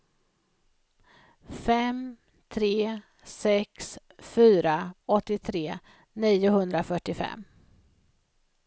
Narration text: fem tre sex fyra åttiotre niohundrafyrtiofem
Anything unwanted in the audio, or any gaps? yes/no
no